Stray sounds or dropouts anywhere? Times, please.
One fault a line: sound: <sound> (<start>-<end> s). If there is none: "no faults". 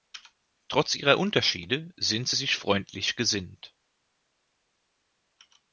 no faults